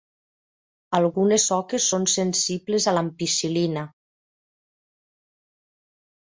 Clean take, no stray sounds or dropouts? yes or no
yes